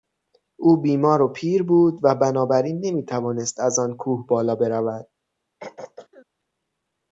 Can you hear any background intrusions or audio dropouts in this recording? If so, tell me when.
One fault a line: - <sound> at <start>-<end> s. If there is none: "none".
- throat clearing at 5.6-6.3 s